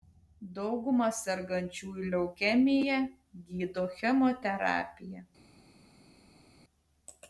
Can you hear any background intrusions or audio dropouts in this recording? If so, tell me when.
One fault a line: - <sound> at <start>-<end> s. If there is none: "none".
none